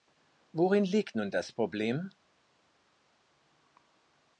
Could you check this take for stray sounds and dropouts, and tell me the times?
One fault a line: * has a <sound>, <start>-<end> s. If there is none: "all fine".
all fine